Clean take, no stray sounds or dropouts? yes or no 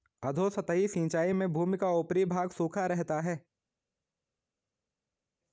yes